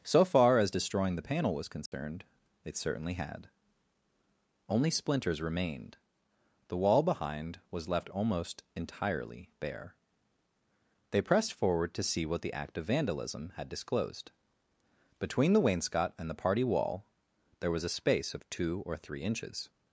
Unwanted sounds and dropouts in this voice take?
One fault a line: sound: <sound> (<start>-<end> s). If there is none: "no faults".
sound: dropout (1.9-1.9 s)